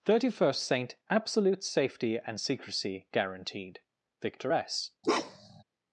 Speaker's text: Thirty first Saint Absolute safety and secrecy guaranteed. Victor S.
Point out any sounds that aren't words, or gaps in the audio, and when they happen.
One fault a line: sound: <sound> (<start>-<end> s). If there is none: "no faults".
sound: bark (5.0-5.6 s)